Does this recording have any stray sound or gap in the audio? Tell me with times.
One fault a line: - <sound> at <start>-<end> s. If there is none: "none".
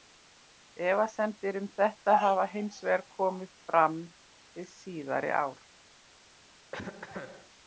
- cough at 6.7-7.5 s